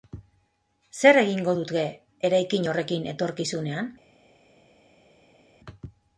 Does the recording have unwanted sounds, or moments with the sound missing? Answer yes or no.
no